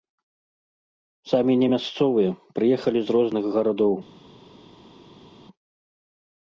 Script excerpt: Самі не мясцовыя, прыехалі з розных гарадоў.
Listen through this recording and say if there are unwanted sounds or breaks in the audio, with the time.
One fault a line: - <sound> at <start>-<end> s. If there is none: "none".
none